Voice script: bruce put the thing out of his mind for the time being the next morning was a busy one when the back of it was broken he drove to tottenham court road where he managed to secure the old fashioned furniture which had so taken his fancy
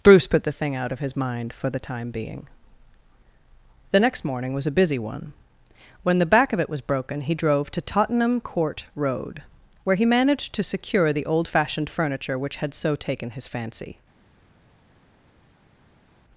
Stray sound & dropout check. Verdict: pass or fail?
pass